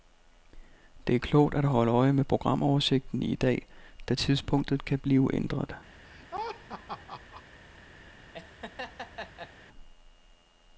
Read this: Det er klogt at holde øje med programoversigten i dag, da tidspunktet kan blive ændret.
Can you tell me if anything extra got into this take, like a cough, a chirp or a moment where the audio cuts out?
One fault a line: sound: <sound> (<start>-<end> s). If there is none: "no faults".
sound: laugh (6.0-7.4 s)
sound: laugh (8.3-9.5 s)